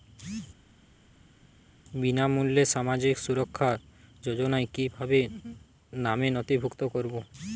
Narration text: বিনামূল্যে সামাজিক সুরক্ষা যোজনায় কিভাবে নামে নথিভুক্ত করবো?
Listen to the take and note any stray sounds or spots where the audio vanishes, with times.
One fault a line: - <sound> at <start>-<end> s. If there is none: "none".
none